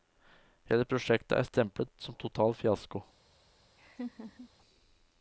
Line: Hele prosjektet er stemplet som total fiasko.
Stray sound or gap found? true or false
true